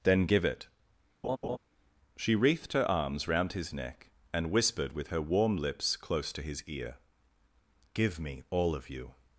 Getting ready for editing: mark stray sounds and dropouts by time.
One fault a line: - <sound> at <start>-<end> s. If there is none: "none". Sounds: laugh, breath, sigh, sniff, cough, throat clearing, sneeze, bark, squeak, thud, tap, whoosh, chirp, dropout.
- laugh at 1.2-1.6 s